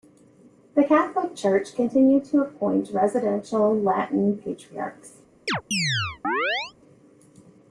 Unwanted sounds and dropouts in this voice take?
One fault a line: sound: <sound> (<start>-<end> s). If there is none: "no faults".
sound: chirp (5.5-6.7 s)